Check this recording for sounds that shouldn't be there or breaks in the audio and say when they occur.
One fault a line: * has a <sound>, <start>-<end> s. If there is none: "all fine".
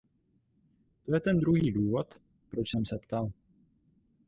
all fine